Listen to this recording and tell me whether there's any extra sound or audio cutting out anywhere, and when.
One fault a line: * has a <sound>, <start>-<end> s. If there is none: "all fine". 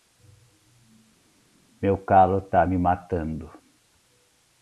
all fine